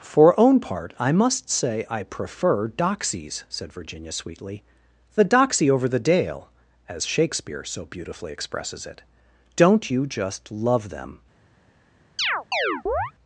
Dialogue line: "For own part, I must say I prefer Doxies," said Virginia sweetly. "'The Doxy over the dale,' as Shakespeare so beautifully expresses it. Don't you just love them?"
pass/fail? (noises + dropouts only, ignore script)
fail